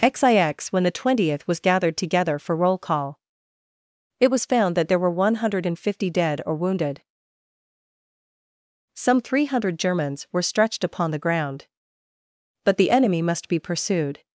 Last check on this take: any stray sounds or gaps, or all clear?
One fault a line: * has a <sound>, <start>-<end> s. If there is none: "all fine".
all fine